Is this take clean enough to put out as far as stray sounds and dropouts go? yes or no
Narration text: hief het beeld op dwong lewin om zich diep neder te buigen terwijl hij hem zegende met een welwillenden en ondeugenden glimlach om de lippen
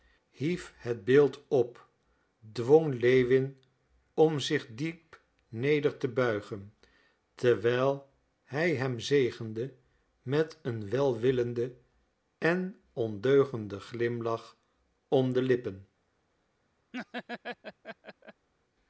no